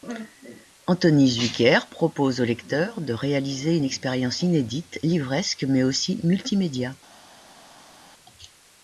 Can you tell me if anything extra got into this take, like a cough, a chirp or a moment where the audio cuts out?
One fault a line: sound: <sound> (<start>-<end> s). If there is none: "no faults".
no faults